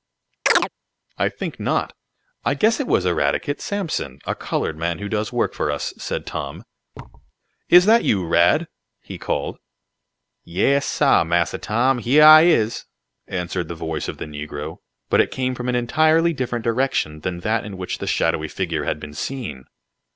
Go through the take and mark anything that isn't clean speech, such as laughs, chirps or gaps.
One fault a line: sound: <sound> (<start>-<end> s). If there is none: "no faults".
sound: chirp (0.5-0.7 s)
sound: thud (6.9-7.3 s)